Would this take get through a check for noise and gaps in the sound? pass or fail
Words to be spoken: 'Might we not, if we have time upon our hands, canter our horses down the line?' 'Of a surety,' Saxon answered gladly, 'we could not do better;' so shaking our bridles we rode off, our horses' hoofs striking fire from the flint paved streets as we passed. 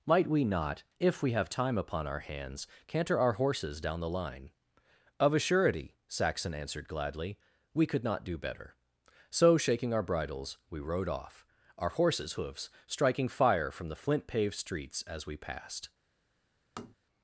fail